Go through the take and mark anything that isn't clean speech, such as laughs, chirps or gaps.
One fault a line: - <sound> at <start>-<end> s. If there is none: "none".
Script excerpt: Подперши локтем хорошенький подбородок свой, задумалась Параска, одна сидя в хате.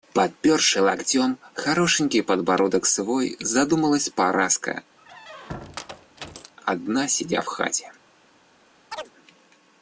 - squeak at 5.0-6.5 s
- chirp at 8.9-9.1 s